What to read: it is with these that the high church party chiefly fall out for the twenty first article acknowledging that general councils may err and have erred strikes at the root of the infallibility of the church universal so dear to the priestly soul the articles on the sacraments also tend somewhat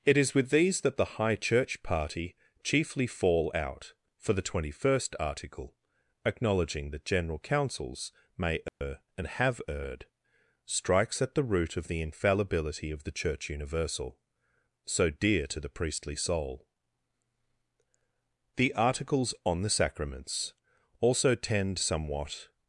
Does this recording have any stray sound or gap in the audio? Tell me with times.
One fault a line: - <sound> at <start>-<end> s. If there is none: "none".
- dropout at 8.7-8.8 s